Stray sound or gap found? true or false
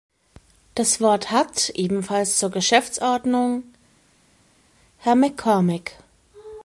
false